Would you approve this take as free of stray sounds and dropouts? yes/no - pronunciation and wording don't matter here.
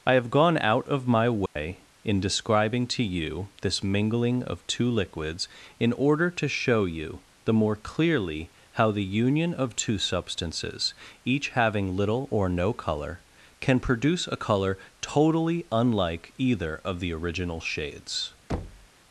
no